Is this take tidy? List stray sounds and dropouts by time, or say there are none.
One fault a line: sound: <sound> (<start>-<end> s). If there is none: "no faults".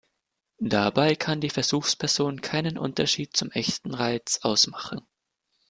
no faults